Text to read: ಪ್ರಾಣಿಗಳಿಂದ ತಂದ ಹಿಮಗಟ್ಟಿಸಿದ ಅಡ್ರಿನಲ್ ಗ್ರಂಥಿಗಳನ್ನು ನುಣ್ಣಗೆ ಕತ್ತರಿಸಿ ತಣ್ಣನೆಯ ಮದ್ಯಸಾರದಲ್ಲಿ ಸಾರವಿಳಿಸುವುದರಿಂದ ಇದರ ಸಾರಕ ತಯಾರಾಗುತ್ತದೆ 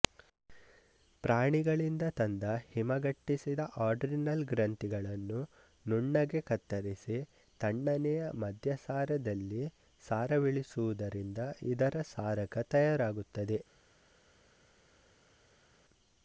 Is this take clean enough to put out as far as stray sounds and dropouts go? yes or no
yes